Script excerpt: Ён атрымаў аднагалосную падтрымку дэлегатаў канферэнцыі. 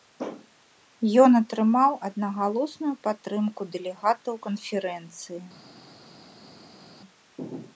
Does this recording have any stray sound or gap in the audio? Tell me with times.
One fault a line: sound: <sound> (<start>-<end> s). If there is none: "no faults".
no faults